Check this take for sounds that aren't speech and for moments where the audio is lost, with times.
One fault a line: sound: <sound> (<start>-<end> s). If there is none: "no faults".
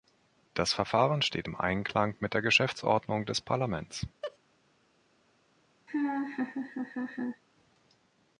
sound: laugh (4.2-4.4 s)
sound: laugh (5.9-7.4 s)